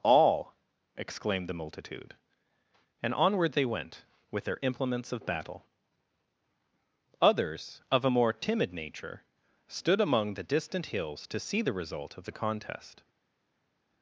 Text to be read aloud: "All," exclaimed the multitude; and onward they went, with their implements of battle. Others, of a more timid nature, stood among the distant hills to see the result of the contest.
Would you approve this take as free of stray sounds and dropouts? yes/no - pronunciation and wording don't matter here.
yes